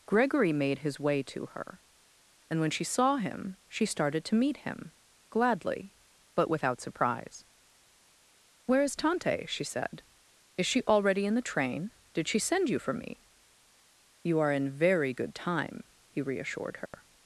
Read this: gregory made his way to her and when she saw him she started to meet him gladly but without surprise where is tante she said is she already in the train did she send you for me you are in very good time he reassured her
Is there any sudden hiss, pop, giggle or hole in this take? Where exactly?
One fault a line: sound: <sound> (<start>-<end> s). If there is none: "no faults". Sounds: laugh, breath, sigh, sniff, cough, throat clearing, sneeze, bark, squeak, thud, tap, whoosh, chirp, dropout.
sound: dropout (16.9-16.9 s)